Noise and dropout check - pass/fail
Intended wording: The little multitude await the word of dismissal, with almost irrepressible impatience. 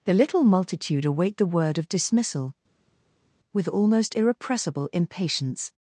pass